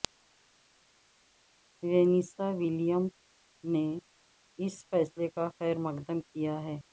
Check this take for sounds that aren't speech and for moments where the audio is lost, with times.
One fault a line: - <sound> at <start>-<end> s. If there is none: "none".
none